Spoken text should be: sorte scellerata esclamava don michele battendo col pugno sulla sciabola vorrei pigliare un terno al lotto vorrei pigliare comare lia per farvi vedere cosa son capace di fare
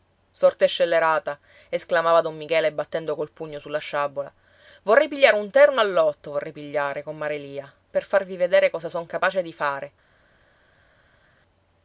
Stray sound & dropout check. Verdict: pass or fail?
pass